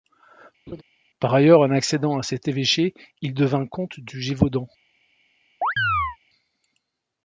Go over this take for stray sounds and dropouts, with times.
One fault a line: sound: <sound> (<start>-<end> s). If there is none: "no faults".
sound: laugh (0.7-0.8 s)
sound: chirp (5.6-6.2 s)